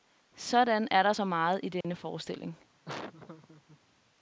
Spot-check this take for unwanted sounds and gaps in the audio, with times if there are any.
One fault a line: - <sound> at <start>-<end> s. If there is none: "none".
- dropout at 1.8-1.8 s
- laugh at 2.8-3.8 s